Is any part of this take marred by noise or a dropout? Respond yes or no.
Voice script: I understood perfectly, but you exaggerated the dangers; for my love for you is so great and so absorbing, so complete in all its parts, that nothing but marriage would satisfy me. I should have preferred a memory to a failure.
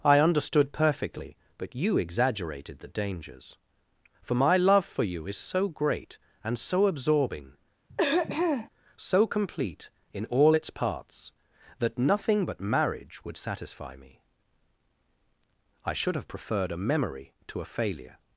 yes